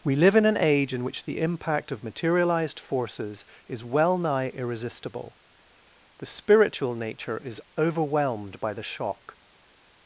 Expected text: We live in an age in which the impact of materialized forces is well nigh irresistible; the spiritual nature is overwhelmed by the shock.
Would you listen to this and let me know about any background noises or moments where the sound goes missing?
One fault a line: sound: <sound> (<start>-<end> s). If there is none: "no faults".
no faults